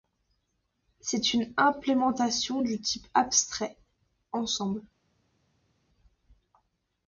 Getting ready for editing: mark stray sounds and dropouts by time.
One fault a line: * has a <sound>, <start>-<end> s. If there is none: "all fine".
all fine